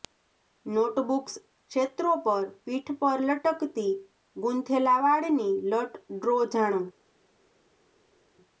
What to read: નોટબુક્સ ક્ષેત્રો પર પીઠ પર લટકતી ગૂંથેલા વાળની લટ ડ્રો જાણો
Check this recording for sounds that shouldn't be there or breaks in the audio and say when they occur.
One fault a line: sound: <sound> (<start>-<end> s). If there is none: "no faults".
no faults